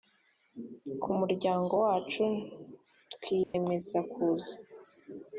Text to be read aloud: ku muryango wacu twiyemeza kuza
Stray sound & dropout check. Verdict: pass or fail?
fail